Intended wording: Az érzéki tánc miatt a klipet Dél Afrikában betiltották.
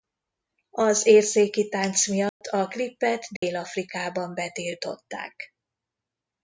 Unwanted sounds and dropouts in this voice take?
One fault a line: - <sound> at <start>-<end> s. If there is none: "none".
- dropout at 2.3-2.4 s
- dropout at 3.4-3.4 s